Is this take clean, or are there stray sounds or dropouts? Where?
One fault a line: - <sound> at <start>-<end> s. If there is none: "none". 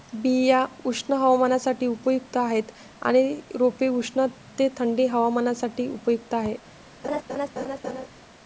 - laugh at 7.0-8.1 s